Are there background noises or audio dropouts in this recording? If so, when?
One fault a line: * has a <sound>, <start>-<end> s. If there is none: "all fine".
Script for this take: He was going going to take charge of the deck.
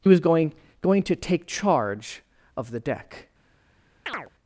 * has a chirp, 4.1-4.3 s